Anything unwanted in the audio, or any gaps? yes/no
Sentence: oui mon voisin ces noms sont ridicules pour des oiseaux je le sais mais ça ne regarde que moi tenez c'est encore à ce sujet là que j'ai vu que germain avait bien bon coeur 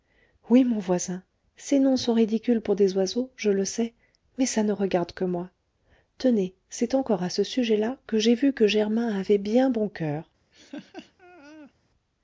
yes